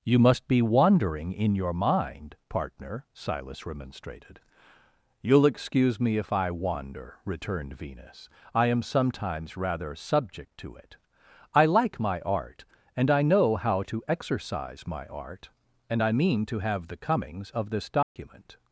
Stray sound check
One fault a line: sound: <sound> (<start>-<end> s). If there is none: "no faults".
sound: dropout (18.0-18.2 s)